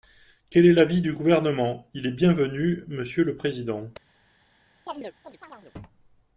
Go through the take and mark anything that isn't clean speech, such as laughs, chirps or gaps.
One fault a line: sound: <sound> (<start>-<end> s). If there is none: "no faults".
sound: chirp (4.9-5.7 s)